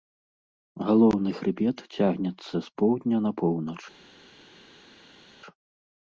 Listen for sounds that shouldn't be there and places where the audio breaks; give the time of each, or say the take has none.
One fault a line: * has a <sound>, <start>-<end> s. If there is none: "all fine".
all fine